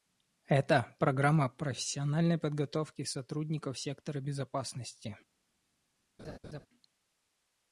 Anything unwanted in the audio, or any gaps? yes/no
yes